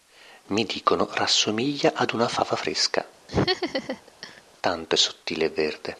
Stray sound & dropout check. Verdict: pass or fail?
fail